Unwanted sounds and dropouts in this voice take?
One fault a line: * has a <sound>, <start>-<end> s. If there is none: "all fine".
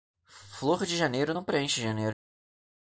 all fine